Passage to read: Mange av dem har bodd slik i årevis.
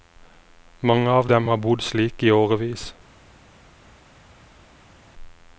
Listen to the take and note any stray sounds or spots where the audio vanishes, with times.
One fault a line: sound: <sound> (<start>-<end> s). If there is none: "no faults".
no faults